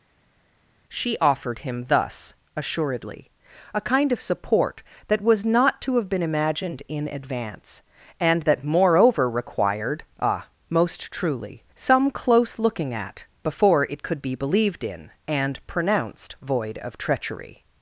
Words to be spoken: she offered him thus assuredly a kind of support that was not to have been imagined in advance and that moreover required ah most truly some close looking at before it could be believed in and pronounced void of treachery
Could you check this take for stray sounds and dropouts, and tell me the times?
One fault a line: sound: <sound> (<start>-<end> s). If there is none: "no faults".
no faults